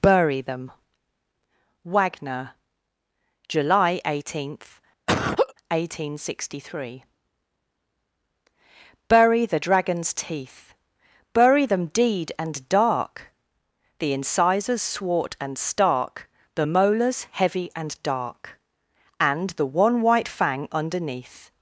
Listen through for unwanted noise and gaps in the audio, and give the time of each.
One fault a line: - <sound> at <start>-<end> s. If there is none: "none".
- laugh at 5.1-5.5 s